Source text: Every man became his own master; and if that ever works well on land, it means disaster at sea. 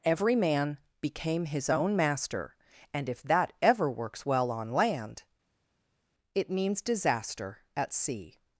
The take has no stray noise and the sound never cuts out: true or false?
true